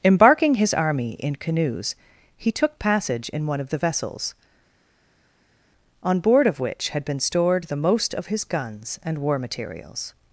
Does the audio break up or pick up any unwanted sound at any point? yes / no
no